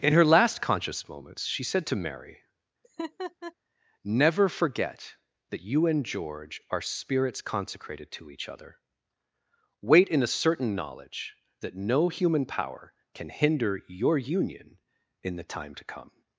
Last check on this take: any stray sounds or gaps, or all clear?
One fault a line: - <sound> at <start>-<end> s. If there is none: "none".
- laugh at 2.8-3.5 s